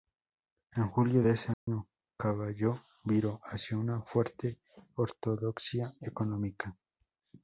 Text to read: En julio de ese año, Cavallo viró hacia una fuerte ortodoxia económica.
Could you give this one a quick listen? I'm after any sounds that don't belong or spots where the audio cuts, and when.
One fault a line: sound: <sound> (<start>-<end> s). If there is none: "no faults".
sound: dropout (1.5-1.7 s)